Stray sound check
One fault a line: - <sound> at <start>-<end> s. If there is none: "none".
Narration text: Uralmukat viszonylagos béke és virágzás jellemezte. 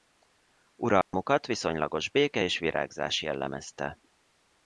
- dropout at 1.0-1.1 s